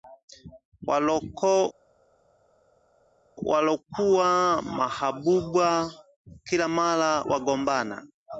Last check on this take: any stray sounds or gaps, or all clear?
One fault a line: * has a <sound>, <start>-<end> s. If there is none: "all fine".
all fine